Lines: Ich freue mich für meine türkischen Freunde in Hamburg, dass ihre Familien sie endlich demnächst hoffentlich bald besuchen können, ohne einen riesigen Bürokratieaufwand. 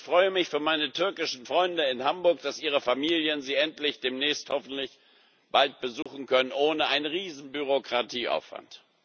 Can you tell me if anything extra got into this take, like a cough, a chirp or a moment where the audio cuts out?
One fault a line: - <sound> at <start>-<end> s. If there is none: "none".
- dropout at 6.0-6.1 s